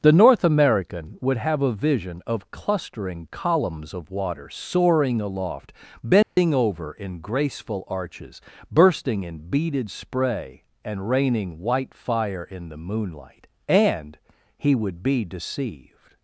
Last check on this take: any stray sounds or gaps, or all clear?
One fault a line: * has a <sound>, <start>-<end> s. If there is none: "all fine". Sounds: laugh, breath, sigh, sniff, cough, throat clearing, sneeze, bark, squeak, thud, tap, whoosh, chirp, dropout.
* has a dropout, 6.2-6.4 s